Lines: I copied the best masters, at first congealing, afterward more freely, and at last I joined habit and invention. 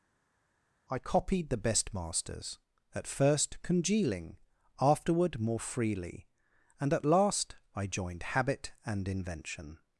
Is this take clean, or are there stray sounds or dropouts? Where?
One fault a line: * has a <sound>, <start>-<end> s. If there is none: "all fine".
all fine